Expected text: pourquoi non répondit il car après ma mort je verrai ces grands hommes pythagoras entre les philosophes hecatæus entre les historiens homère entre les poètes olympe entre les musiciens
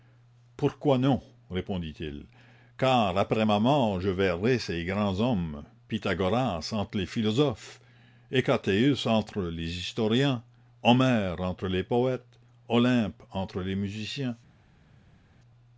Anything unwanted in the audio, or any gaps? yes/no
no